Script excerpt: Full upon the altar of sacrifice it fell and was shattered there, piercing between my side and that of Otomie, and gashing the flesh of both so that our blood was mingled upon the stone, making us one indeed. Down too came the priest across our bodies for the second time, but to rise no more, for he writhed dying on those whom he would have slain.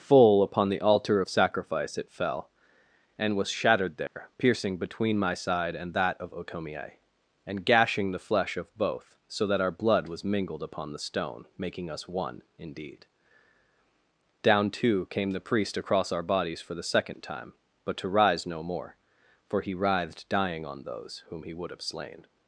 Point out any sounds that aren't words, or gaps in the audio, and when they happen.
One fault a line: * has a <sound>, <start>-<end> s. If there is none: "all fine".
* has a dropout, 4.1-4.2 s